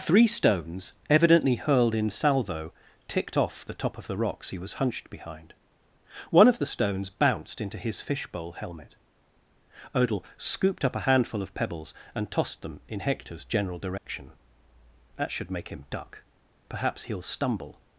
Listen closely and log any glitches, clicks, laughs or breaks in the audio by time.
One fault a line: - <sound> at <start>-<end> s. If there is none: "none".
- dropout at 14.0-14.1 s